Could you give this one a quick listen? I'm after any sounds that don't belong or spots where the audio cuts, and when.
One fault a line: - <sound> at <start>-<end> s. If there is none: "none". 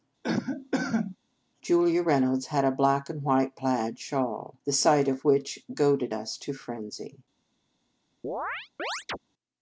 - cough at 0.2-1.2 s
- chirp at 8.2-9.2 s